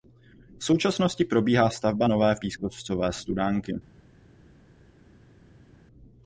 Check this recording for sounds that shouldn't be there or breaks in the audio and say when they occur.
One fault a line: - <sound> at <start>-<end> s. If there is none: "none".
none